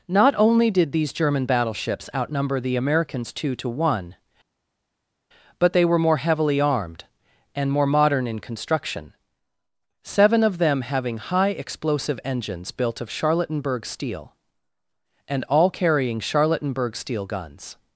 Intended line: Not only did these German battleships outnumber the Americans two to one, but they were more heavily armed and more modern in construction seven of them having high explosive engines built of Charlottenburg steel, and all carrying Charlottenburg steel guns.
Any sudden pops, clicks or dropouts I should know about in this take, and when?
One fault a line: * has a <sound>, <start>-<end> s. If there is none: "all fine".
all fine